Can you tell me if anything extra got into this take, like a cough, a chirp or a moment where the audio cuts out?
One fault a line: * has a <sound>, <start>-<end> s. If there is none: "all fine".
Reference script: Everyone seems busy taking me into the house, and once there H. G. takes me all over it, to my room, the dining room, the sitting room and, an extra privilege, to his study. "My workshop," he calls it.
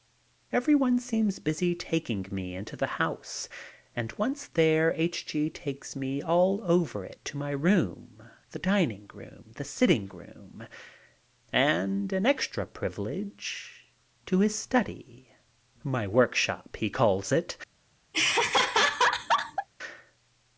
* has a laugh, 18.1-19.7 s